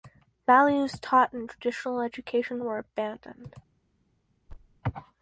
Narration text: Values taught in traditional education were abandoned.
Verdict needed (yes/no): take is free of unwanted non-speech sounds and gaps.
no